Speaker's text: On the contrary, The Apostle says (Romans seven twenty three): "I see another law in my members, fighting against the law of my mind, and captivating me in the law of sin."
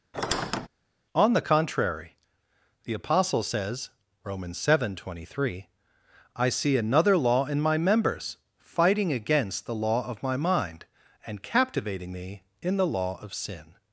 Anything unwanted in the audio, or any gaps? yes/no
yes